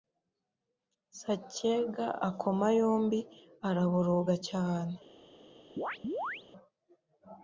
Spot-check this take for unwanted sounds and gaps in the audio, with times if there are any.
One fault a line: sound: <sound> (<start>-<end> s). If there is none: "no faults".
sound: chirp (5.8-6.4 s)